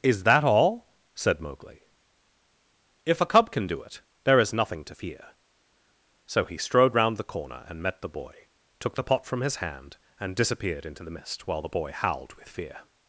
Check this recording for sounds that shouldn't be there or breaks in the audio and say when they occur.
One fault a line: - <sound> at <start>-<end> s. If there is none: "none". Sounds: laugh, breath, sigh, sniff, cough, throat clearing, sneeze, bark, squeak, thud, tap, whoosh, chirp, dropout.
none